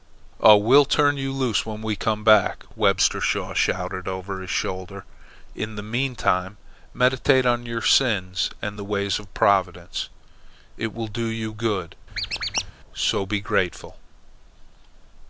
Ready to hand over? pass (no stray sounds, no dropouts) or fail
fail